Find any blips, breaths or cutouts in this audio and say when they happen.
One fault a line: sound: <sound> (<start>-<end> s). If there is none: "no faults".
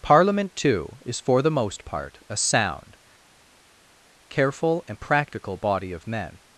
no faults